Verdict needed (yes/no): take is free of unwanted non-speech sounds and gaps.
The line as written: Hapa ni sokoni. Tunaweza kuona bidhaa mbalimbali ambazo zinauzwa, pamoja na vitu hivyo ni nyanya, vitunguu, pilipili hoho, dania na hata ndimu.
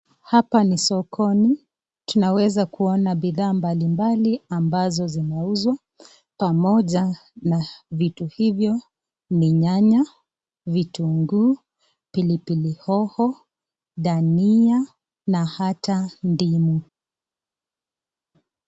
yes